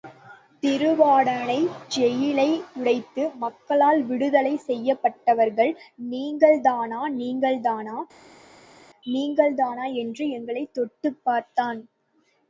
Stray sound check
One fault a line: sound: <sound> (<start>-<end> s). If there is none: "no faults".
no faults